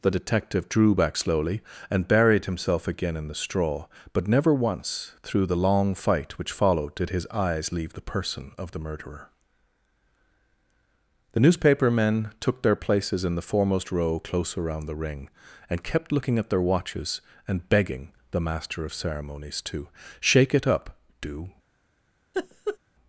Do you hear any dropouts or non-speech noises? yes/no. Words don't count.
yes